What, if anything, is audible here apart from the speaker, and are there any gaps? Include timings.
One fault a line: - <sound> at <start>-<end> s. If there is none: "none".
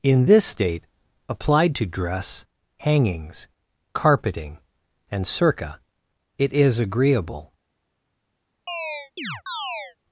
- chirp at 8.7-10.0 s